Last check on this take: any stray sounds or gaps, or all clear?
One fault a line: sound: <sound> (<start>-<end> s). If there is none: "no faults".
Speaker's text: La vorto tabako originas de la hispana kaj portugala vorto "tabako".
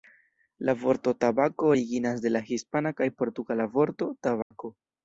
sound: dropout (4.4-4.5 s)